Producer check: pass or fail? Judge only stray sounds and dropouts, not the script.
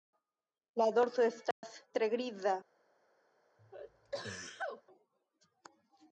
fail